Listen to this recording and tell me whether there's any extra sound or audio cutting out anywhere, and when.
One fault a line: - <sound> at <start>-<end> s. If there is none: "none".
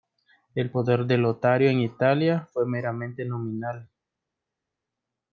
none